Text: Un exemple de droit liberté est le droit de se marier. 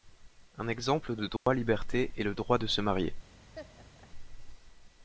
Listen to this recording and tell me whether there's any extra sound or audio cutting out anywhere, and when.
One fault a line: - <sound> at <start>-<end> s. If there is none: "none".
- dropout at 1.4-1.5 s
- laugh at 3.5-4.1 s